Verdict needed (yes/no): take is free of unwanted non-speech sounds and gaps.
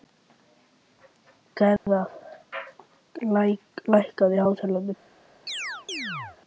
no